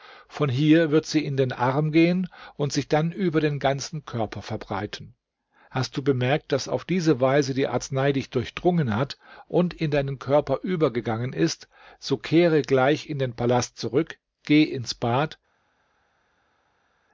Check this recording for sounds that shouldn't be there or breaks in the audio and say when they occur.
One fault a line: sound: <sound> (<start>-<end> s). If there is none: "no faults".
no faults